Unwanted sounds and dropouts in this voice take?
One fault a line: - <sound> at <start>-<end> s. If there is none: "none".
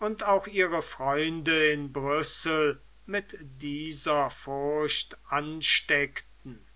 none